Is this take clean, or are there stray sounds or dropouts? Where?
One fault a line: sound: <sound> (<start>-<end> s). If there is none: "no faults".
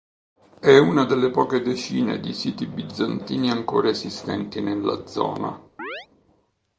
sound: chirp (5.8-6.1 s)